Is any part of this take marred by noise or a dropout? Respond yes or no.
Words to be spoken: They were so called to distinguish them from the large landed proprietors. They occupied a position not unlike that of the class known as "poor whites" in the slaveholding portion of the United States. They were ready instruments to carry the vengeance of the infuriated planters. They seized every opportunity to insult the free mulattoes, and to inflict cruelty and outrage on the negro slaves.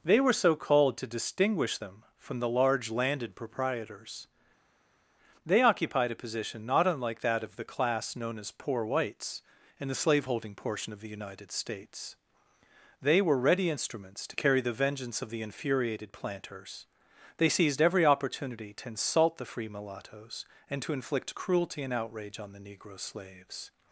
no